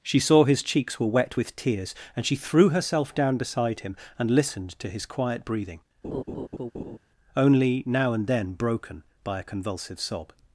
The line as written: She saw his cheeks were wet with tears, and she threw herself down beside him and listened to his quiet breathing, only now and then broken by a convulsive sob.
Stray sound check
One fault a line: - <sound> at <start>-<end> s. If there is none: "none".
- laugh at 6.0-7.0 s